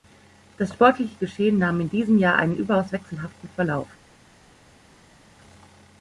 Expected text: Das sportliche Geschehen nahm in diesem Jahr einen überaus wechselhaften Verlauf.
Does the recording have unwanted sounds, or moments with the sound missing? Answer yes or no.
no